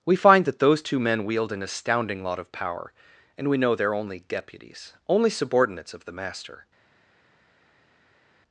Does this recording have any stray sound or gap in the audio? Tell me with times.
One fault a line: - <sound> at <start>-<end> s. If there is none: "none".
none